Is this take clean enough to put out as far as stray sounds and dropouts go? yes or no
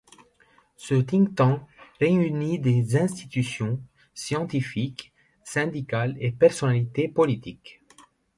yes